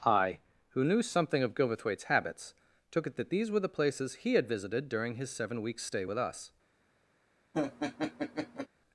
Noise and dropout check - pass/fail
fail